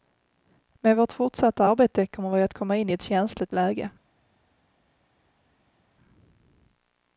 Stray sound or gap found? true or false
false